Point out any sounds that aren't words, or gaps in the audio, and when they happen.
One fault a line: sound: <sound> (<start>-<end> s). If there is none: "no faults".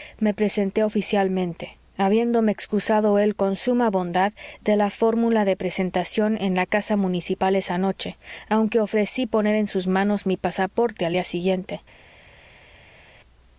no faults